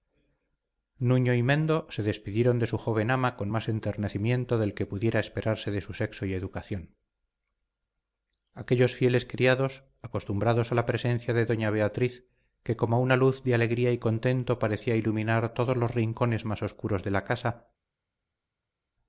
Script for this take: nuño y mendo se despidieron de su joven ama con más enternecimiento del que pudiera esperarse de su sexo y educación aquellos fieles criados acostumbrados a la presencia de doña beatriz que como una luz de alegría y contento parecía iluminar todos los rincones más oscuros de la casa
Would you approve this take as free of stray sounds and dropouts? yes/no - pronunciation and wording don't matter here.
yes